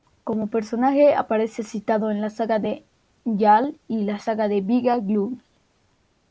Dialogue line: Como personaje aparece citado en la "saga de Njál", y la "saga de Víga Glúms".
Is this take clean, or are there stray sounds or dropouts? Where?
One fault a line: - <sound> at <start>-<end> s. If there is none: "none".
none